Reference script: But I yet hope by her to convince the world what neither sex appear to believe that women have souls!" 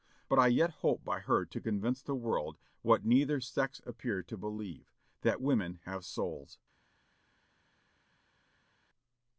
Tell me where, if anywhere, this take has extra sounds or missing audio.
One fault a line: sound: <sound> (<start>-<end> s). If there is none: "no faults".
no faults